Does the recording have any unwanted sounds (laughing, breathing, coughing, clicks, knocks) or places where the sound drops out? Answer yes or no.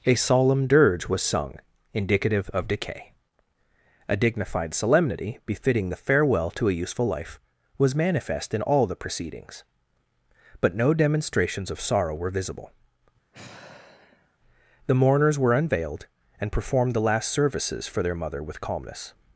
yes